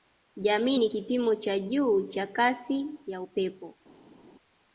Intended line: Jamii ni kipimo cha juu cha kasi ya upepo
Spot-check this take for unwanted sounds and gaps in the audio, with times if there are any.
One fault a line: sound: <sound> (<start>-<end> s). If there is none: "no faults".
no faults